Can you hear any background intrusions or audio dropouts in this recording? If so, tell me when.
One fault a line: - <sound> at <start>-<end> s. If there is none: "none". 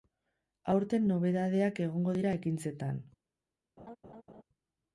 - laugh at 3.8-4.4 s